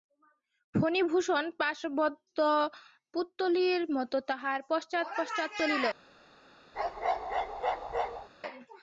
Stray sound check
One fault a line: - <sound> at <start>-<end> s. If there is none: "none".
- bark at 6.7-8.3 s